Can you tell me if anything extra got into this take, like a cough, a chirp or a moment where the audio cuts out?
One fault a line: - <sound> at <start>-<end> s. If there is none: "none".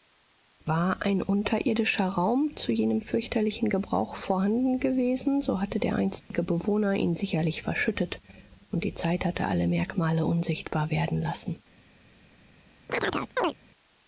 - dropout at 6.2-6.3 s
- chirp at 12.9-13.5 s